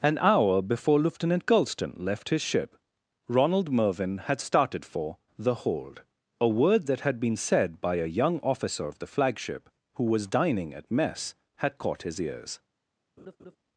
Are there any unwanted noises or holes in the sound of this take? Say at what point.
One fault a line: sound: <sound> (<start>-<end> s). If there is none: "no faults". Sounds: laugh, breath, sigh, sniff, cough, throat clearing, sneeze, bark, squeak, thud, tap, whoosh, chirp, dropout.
sound: laugh (13.2-13.6 s)